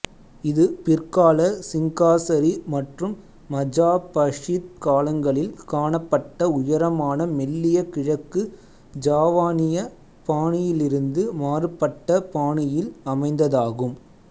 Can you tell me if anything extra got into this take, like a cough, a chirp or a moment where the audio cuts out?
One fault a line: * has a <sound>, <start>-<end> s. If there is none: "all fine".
all fine